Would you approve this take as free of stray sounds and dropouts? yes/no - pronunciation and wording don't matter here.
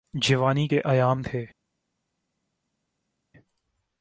yes